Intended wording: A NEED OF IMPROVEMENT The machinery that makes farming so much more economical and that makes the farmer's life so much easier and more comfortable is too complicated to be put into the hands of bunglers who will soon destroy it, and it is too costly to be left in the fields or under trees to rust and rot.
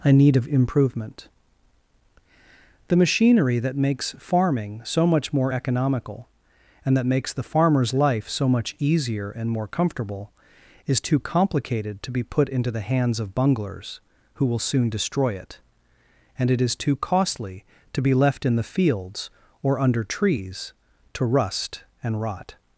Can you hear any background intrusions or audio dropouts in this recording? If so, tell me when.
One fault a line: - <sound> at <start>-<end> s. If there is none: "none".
none